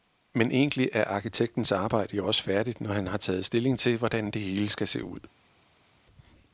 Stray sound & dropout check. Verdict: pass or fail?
pass